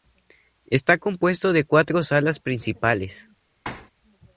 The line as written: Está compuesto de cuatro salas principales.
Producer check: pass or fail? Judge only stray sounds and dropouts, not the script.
fail